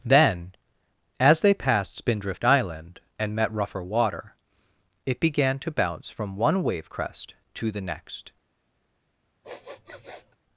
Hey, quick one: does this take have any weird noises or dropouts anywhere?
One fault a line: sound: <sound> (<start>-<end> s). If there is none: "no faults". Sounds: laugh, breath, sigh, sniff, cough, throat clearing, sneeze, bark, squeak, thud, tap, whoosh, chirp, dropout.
sound: sniff (9.4-10.4 s)